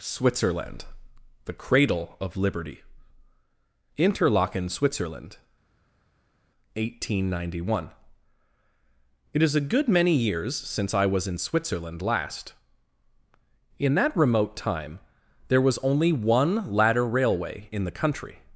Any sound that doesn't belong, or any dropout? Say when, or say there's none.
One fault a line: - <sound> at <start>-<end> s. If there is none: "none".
none